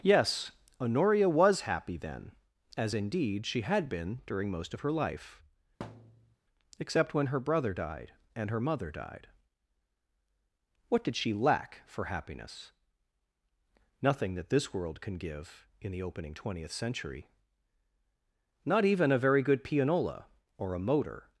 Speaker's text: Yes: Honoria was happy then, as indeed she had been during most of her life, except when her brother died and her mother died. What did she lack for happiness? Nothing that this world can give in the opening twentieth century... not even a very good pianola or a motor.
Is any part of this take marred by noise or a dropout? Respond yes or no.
yes